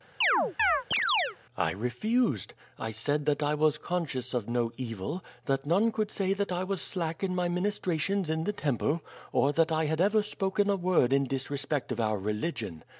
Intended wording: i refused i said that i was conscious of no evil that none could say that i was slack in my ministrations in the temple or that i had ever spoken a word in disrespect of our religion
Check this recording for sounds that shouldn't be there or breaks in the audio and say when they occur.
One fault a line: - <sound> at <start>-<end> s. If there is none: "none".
- chirp at 0.2-1.4 s